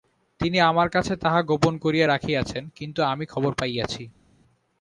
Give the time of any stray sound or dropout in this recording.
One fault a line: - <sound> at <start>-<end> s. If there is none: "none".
none